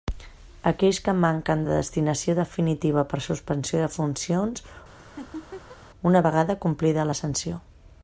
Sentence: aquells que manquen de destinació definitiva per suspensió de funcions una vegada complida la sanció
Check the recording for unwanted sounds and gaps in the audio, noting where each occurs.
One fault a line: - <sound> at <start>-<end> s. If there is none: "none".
- laugh at 5.0-5.8 s